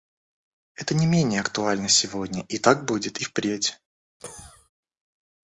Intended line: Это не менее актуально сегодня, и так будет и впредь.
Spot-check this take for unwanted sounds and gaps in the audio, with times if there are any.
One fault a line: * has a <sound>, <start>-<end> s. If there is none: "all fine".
* has a cough, 4.2-4.7 s